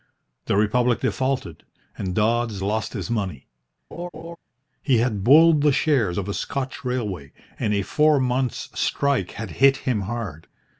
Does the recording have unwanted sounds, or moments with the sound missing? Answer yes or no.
yes